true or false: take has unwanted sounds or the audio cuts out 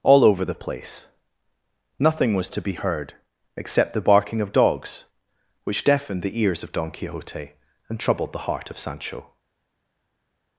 false